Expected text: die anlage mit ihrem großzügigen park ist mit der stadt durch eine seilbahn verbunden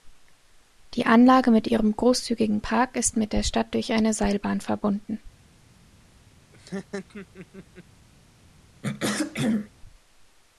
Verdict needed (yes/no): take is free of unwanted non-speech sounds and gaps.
no